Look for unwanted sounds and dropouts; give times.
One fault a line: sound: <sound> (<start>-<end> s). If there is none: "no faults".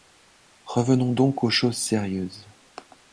no faults